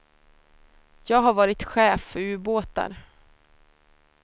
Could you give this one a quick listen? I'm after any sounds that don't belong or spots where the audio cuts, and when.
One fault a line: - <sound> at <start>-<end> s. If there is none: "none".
none